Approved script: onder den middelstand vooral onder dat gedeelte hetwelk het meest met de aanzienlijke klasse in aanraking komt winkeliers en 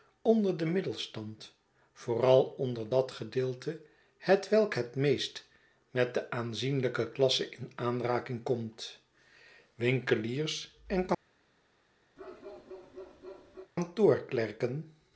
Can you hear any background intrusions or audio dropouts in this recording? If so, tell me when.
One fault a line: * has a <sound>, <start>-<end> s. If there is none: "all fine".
* has a bark, 12.2-13.7 s